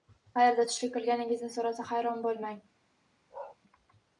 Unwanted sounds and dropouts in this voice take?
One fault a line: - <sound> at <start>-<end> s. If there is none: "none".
- bark at 3.3-3.6 s